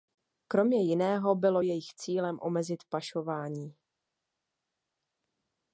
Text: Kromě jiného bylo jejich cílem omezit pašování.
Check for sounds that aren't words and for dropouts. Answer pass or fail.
pass